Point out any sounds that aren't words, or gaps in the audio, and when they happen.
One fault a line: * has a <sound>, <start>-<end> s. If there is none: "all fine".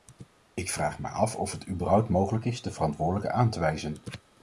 all fine